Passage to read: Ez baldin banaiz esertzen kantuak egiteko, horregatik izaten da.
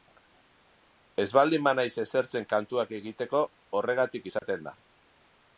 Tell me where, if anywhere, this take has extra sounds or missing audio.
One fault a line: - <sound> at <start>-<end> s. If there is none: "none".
- dropout at 4.4-4.4 s